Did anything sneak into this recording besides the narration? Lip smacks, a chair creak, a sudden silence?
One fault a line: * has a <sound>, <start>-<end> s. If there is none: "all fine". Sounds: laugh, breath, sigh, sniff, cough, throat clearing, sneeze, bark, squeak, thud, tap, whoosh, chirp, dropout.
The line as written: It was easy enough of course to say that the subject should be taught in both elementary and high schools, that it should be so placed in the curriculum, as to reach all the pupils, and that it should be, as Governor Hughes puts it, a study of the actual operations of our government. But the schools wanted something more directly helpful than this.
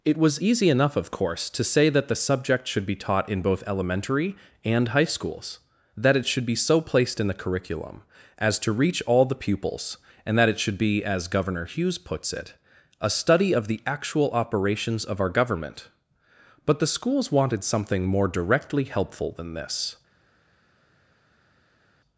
all fine